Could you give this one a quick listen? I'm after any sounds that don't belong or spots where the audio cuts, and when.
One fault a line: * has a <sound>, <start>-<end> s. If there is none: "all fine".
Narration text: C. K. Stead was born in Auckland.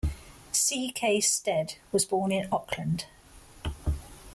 all fine